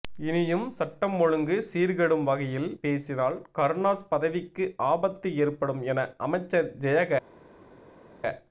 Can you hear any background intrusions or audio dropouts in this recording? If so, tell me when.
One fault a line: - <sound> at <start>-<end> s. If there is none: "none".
none